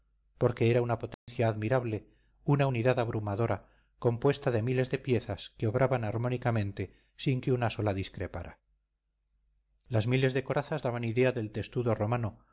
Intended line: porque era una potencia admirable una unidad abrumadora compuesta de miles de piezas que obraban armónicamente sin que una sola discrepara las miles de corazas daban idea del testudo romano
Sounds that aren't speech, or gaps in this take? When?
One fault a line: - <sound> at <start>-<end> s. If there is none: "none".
- dropout at 1.1-1.3 s